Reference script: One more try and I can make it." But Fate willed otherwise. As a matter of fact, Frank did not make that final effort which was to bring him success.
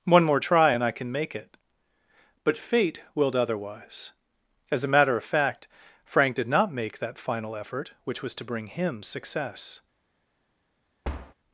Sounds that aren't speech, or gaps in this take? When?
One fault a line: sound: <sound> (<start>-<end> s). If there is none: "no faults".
sound: thud (11.0-11.3 s)